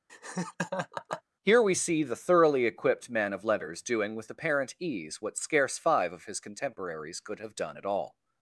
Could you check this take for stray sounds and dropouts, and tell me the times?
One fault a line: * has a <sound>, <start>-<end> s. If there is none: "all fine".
* has a laugh, 0.1-1.2 s